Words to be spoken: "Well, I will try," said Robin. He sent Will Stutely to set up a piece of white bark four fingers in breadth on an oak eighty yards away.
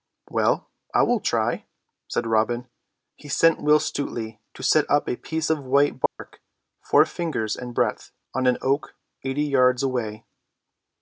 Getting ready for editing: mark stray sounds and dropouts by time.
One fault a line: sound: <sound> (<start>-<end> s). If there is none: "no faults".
sound: dropout (6.1-6.2 s)